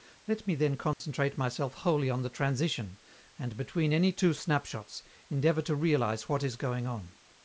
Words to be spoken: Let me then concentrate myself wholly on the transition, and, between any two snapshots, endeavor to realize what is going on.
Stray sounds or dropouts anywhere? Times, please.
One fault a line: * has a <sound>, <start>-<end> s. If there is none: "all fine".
* has a dropout, 0.9-1.0 s